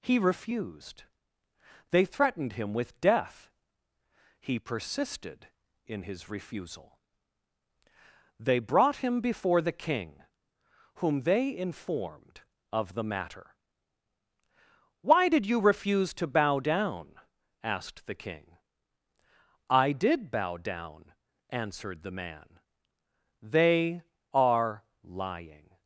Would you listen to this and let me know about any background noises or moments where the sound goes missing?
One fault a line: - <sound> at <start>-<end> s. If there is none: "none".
none